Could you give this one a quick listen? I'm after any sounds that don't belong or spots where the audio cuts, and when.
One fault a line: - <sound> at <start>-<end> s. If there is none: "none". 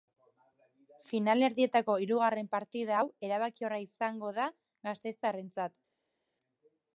none